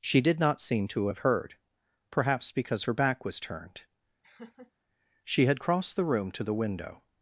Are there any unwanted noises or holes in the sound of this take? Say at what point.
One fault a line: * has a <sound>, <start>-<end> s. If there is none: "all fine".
* has a laugh, 4.2-4.7 s